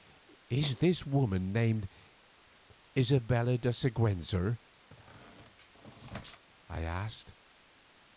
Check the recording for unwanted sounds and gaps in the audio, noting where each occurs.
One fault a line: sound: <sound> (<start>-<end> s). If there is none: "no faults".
sound: squeak (4.9-6.4 s)